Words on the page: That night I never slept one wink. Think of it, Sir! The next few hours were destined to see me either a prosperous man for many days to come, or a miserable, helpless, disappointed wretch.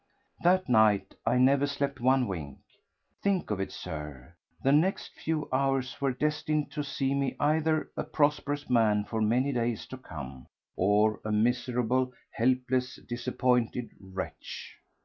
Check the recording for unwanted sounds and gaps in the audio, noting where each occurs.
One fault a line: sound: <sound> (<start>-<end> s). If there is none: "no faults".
no faults